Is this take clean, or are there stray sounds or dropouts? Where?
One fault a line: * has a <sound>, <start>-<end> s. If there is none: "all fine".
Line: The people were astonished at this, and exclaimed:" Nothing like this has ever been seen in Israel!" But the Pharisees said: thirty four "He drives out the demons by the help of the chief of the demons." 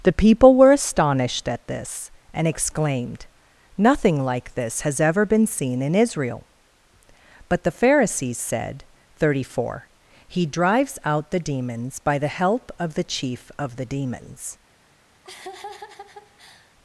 * has a laugh, 15.2-16.7 s